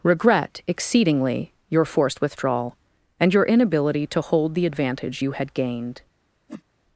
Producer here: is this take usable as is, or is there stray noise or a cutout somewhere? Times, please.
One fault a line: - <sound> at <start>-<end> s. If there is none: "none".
- whoosh at 6.5-6.6 s